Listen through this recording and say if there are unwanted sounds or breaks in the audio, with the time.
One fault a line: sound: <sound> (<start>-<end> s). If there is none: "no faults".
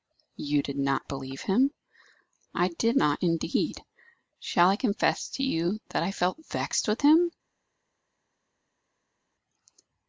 no faults